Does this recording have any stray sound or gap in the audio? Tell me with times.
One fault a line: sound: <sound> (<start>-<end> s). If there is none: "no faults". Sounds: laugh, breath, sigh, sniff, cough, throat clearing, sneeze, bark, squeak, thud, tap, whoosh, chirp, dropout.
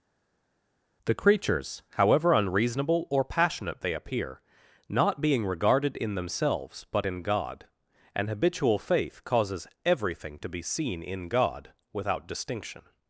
no faults